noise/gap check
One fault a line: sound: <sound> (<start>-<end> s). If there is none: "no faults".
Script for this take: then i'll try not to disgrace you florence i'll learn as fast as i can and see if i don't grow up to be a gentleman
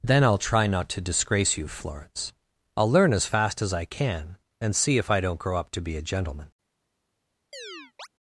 sound: chirp (7.5-8.1 s)